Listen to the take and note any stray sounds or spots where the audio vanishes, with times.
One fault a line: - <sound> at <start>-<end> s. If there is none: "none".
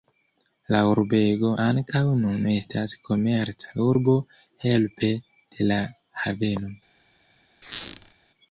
- squeak at 7.6-8.1 s